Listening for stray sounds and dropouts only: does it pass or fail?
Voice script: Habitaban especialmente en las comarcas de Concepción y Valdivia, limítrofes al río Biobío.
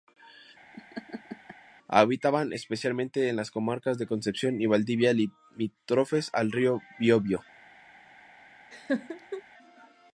fail